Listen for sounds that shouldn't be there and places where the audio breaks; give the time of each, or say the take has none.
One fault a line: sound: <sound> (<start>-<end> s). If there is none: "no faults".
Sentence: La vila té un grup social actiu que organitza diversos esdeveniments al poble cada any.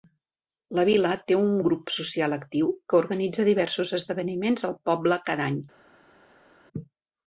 no faults